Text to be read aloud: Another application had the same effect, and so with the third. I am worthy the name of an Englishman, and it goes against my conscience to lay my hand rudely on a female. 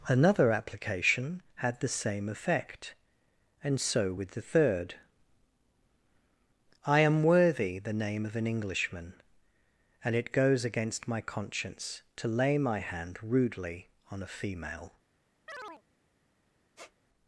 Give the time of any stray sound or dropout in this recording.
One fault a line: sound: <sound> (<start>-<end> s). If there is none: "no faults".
sound: chirp (15.5-15.8 s)
sound: squeak (16.8-16.9 s)